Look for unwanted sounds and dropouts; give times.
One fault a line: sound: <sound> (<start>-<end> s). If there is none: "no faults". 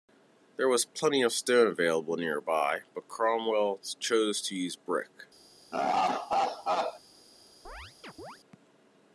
sound: laugh (5.7-7.0 s)
sound: chirp (7.6-8.4 s)